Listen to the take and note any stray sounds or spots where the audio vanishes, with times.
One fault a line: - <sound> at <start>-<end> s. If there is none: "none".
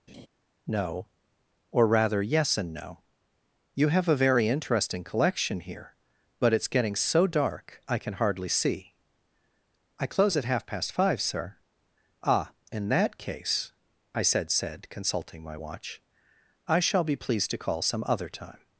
- laugh at 0.1-0.3 s